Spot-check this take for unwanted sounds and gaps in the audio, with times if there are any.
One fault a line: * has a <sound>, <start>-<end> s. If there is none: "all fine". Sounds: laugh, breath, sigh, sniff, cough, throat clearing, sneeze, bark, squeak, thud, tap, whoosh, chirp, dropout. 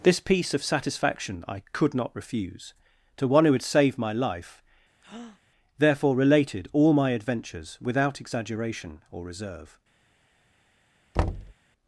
* has a breath, 5.0-5.4 s
* has a thud, 11.1-11.5 s